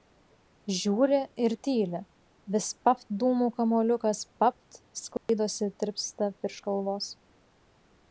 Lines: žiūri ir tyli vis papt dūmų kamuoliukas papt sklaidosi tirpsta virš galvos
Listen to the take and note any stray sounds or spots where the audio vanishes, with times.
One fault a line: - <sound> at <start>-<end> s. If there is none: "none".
- dropout at 5.2-5.3 s